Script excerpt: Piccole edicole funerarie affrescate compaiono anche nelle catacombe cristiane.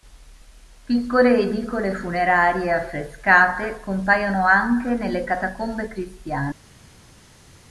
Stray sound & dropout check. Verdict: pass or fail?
pass